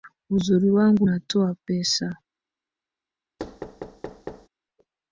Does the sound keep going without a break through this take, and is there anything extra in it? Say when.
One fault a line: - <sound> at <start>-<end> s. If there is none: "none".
- thud at 3.4-4.5 s